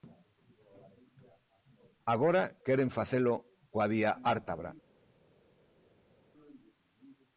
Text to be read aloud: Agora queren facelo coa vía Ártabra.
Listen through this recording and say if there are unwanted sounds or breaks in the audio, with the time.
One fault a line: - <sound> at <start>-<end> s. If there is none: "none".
none